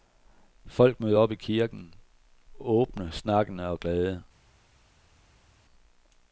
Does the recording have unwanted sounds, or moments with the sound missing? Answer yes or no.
no